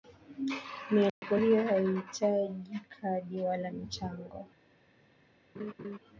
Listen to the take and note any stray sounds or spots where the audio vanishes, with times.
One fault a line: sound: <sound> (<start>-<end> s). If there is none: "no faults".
sound: dropout (1.1-1.2 s)
sound: laugh (5.5-6.0 s)